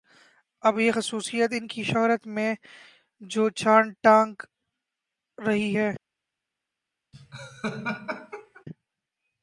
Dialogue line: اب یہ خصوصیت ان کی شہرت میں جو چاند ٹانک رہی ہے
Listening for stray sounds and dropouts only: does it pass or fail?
fail